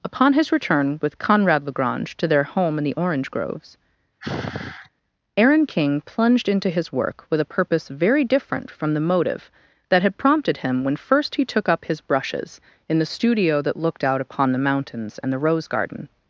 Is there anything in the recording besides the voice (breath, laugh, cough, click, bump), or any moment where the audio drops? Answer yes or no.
yes